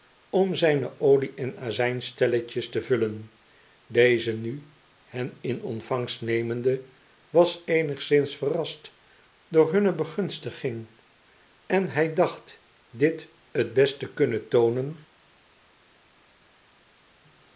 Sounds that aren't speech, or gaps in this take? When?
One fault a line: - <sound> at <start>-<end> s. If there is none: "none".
none